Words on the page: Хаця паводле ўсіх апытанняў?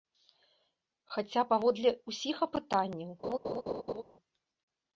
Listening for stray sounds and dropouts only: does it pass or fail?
fail